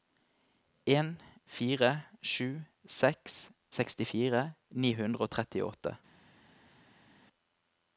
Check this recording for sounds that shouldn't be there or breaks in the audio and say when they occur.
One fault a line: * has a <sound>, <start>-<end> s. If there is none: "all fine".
all fine